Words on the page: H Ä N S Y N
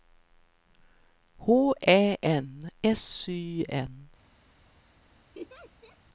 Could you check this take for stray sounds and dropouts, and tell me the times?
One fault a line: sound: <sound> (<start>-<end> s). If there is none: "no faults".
sound: laugh (5.3-6.0 s)